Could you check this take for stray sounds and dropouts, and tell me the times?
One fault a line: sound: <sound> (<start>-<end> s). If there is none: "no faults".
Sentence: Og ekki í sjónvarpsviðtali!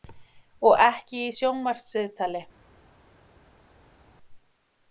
no faults